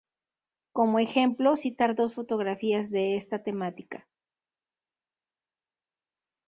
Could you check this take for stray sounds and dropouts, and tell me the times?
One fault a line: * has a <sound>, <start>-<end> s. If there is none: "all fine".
all fine